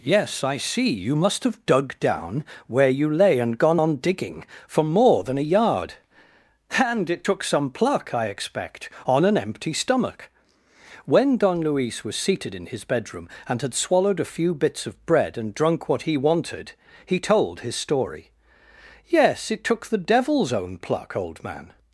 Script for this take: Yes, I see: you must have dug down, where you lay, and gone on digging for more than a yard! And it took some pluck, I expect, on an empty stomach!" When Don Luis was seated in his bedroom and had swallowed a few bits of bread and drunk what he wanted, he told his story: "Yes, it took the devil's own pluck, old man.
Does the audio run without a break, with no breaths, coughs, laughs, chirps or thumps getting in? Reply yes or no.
yes